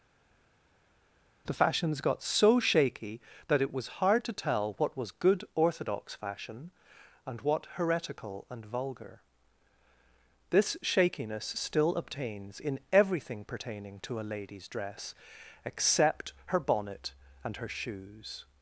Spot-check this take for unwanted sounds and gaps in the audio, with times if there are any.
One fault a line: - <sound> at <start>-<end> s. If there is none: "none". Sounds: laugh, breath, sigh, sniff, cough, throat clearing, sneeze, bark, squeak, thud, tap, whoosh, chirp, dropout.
none